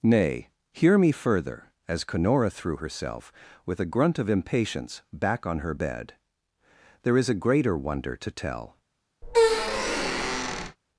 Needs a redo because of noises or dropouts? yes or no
yes